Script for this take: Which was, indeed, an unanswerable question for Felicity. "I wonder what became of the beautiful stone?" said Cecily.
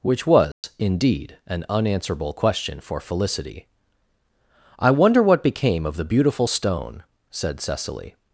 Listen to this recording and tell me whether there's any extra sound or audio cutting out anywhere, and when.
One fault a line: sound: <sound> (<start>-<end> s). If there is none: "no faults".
sound: dropout (0.5-0.6 s)